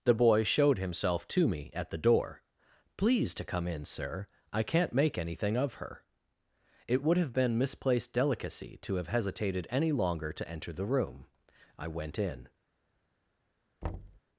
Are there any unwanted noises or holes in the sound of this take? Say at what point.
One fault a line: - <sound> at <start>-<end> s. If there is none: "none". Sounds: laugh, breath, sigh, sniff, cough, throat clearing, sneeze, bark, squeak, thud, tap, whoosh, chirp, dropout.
- thud at 13.8-14.2 s